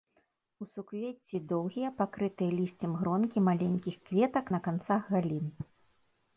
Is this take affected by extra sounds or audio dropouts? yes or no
no